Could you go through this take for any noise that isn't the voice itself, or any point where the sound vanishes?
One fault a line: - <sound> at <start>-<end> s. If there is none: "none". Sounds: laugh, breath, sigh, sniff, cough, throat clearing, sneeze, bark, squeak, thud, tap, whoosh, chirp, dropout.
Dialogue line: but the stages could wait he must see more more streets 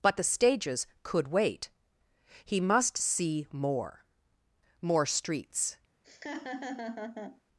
- laugh at 6.0-7.4 s